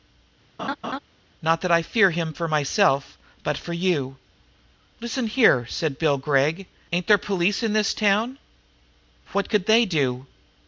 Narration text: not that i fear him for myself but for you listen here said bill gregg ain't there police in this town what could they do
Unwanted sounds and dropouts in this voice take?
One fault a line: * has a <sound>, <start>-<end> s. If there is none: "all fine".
* has a laugh, 0.6-1.0 s